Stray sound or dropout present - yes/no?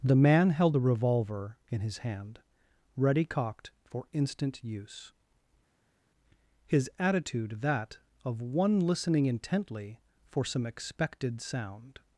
no